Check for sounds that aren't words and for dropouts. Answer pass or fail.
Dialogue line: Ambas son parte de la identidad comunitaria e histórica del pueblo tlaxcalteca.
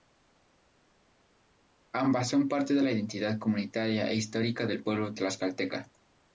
pass